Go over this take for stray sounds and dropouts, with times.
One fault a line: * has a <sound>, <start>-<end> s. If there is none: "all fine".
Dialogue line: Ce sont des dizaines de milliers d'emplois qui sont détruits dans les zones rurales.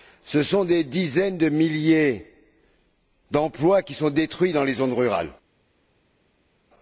all fine